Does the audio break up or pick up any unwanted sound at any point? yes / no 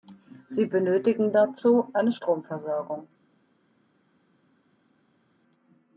no